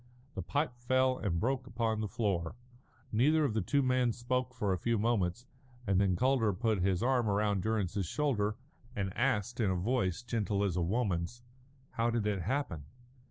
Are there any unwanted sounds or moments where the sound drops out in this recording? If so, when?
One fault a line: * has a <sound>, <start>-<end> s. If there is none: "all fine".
all fine